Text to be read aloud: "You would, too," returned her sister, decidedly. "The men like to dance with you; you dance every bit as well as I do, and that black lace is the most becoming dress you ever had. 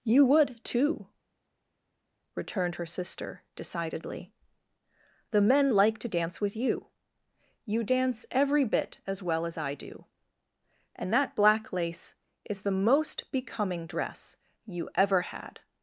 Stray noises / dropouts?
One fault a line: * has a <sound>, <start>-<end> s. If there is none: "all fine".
all fine